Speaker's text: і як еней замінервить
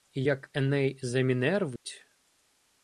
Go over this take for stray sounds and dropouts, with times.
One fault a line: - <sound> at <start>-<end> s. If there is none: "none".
- dropout at 1.8-1.9 s